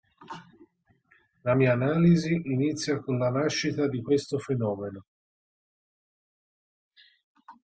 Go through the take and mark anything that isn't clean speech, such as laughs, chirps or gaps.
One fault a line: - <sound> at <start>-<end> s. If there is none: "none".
none